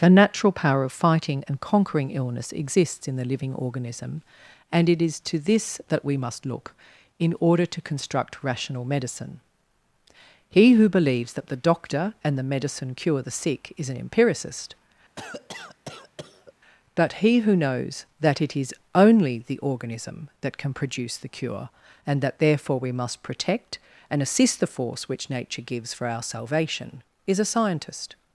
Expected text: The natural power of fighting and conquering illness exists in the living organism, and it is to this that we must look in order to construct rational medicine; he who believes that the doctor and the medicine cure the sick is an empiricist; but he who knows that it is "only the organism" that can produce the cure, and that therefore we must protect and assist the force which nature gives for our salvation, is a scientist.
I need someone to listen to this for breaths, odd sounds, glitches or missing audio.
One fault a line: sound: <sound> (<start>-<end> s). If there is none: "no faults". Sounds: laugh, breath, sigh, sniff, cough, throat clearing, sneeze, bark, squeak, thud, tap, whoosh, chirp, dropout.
sound: cough (15.2-16.5 s)